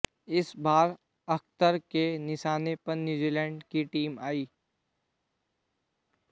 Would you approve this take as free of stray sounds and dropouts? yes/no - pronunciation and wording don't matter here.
yes